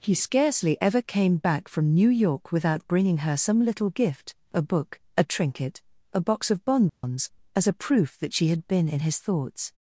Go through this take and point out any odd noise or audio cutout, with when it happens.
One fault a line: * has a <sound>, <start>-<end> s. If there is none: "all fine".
* has a dropout, 6.9-7.0 s